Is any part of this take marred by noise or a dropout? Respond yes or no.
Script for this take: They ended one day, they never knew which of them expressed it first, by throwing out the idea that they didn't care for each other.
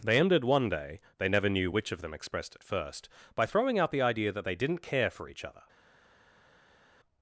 no